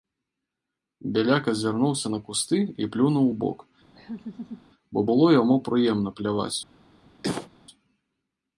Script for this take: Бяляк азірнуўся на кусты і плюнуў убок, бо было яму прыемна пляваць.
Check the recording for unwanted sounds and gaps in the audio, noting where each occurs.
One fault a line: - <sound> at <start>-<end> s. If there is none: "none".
- laugh at 4.0-4.7 s
- cough at 7.2-7.5 s